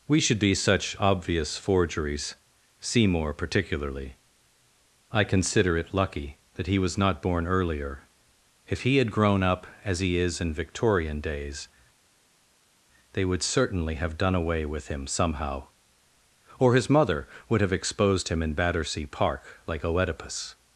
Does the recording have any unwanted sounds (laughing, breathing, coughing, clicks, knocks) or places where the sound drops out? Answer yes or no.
no